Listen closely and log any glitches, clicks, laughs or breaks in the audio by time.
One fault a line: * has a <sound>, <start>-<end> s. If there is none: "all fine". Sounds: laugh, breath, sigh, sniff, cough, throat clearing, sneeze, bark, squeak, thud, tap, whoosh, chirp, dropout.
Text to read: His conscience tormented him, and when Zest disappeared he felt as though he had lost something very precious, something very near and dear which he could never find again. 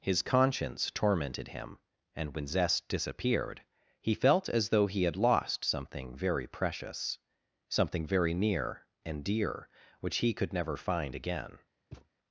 * has a thud, 11.9-12.1 s